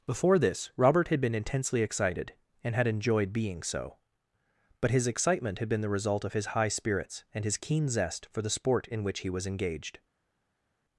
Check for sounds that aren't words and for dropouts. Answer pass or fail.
pass